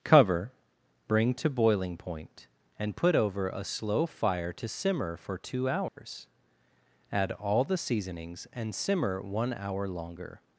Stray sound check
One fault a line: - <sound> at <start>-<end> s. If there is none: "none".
- dropout at 5.9-6.0 s